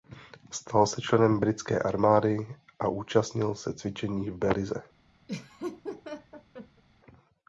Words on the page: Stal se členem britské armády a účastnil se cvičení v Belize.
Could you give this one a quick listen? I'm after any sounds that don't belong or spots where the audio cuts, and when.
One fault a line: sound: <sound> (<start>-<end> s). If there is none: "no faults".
sound: laugh (5.3-6.8 s)